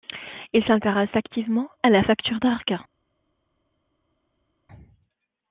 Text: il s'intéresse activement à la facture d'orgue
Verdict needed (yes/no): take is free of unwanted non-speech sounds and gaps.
yes